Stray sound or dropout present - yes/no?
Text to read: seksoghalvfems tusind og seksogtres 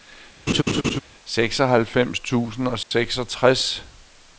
yes